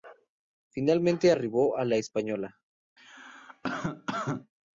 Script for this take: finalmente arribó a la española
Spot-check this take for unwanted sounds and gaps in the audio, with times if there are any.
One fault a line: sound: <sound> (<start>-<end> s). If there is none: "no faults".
sound: cough (3.0-4.5 s)